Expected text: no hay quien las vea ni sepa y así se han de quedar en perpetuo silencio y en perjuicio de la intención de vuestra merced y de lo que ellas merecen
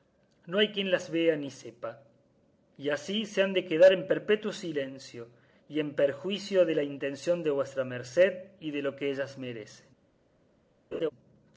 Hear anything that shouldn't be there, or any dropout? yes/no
yes